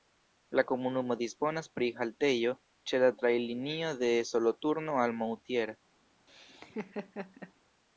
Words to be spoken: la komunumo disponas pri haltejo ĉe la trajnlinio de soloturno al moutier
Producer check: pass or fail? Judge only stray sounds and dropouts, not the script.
fail